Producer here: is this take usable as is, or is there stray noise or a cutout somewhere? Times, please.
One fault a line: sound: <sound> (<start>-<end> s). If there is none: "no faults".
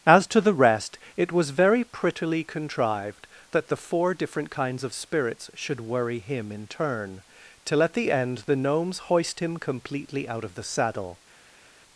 no faults